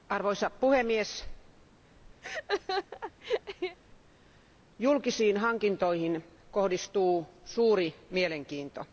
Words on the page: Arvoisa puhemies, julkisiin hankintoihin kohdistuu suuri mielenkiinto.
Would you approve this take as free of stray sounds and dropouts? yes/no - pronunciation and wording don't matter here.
no